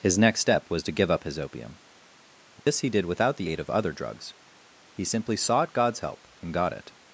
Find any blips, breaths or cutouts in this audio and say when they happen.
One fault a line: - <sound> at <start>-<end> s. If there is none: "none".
- dropout at 2.6-2.7 s